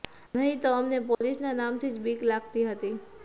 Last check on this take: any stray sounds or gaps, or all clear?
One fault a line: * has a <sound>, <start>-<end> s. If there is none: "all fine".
* has a dropout, 1.1-1.2 s